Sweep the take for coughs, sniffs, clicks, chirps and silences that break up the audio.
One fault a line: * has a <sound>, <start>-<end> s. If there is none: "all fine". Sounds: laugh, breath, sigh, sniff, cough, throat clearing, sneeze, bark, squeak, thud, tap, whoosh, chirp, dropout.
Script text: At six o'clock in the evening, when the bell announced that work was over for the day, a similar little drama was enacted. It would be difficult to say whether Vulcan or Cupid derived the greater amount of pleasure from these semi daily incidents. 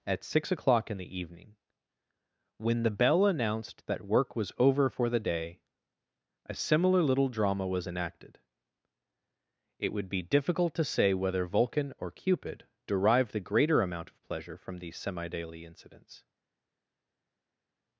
all fine